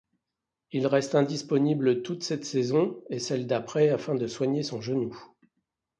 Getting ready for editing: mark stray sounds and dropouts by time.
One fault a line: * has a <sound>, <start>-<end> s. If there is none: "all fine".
all fine